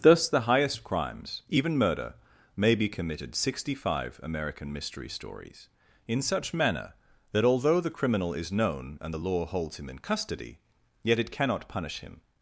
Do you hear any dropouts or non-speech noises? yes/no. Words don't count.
no